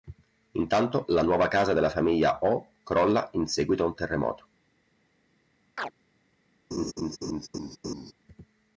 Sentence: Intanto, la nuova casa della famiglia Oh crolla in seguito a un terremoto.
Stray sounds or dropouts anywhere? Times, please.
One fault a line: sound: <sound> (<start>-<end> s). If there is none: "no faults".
sound: chirp (5.8-5.9 s)
sound: laugh (6.7-8.1 s)